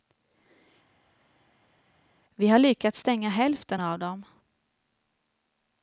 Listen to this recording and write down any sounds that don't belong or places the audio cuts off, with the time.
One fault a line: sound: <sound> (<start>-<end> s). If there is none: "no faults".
no faults